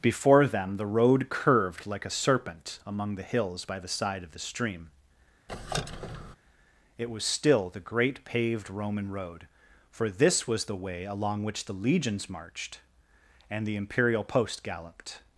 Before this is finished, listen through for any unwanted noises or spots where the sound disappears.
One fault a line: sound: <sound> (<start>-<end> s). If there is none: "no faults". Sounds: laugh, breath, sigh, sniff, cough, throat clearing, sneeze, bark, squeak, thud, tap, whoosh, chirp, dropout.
sound: squeak (5.5-6.4 s)